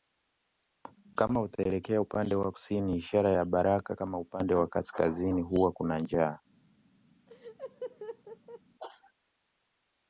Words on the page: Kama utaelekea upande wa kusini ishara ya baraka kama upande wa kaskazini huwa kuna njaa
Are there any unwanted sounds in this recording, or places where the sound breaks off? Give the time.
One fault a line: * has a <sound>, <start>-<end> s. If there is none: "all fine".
* has a laugh, 7.3-8.6 s